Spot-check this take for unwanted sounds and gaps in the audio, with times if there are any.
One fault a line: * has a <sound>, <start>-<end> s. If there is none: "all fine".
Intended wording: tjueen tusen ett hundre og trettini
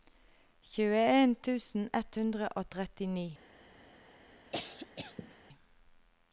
* has a cough, 4.5-5.4 s